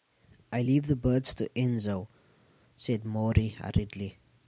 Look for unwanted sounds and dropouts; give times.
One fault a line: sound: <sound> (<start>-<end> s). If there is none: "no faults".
no faults